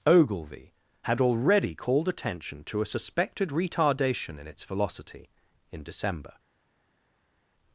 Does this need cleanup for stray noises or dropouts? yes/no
no